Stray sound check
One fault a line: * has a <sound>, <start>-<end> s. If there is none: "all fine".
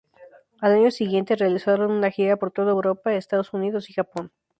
all fine